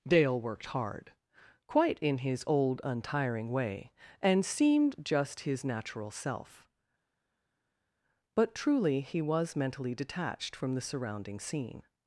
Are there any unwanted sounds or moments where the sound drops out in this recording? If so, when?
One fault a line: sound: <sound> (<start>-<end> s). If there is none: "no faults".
no faults